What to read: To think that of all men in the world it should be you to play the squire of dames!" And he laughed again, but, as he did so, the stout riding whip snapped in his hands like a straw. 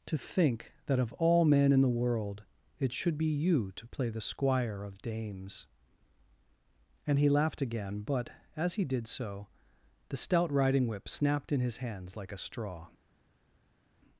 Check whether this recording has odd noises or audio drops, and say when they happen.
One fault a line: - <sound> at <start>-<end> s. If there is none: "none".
none